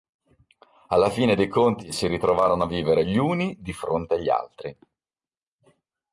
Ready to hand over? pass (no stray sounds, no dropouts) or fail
pass